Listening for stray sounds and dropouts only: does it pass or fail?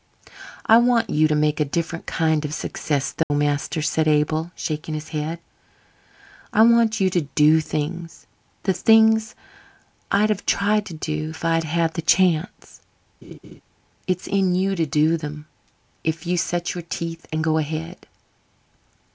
fail